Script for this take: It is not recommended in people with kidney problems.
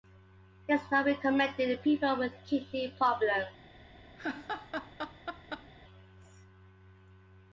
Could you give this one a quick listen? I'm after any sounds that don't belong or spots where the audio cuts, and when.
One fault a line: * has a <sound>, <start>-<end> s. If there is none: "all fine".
* has a laugh, 4.2-5.7 s